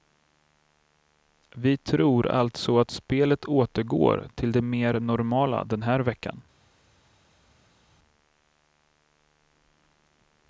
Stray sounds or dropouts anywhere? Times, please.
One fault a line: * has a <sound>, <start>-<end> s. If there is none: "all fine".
all fine